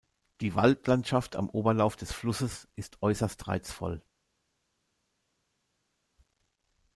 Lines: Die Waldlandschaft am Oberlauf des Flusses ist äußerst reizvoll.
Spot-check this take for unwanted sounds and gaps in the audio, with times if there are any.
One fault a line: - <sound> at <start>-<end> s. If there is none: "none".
none